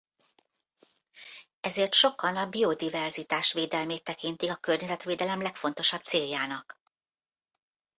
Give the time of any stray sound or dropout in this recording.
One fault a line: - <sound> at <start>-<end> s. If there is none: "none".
none